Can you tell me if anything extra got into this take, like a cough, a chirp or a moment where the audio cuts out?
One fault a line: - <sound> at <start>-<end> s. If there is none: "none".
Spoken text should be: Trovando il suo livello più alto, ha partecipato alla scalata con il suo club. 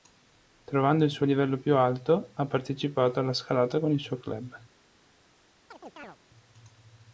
- chirp at 5.7-6.2 s